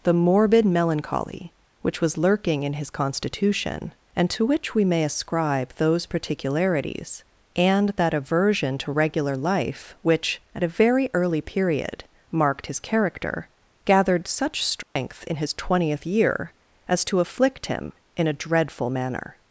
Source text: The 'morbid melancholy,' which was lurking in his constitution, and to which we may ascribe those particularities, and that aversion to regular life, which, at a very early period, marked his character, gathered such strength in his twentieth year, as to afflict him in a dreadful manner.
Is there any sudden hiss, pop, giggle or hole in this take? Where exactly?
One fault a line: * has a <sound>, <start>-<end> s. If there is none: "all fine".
* has a dropout, 14.8-15.0 s